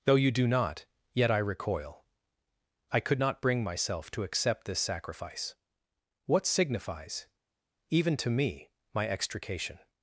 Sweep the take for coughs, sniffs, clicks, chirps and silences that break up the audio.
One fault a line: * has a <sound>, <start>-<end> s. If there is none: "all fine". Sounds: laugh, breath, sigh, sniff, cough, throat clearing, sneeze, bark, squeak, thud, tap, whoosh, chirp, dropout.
all fine